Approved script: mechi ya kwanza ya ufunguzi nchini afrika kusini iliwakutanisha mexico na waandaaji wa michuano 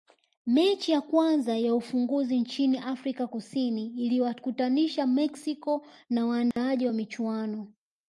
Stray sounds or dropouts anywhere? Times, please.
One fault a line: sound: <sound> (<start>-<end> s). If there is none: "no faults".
sound: dropout (6.5-6.6 s)